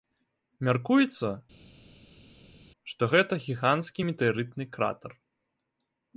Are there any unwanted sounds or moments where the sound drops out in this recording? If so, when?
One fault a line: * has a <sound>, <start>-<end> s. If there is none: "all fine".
all fine